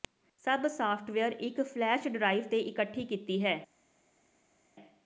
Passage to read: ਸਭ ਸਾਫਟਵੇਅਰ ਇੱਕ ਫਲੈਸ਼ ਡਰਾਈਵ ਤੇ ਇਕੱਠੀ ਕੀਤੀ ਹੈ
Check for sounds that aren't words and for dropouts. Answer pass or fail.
pass